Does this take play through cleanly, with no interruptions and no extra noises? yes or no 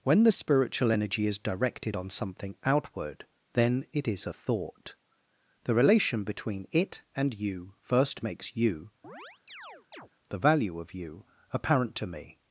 no